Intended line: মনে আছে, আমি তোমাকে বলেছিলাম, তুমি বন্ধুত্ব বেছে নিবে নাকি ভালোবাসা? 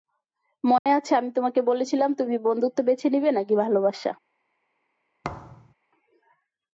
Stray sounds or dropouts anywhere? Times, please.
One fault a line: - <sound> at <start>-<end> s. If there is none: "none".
- dropout at 0.8-0.9 s
- thud at 5.2-5.7 s